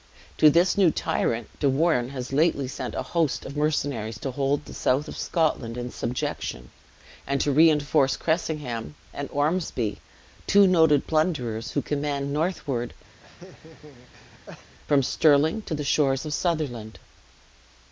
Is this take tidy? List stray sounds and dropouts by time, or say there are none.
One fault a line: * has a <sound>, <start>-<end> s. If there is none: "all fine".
* has a laugh, 13.2-14.8 s